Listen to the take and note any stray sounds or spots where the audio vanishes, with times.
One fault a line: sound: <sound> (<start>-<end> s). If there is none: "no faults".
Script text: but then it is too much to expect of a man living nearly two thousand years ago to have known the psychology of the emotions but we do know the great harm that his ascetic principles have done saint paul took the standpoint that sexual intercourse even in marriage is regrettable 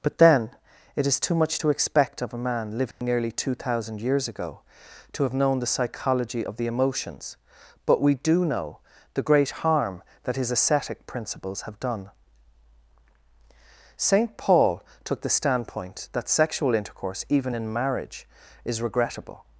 sound: dropout (2.9-3.0 s)